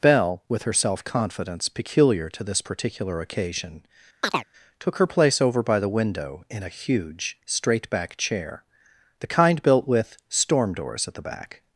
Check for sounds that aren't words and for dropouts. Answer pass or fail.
fail